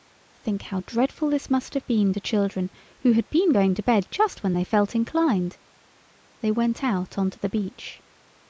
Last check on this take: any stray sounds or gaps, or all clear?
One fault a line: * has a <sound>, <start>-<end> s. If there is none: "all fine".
all fine